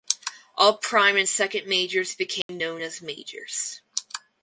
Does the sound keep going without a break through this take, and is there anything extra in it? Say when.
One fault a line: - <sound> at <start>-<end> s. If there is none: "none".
- dropout at 2.4-2.5 s